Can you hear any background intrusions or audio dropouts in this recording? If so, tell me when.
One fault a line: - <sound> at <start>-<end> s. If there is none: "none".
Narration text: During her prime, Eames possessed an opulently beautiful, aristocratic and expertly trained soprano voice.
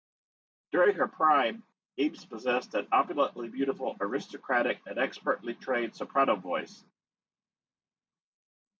none